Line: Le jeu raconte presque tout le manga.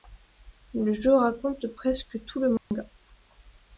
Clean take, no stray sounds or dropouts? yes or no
no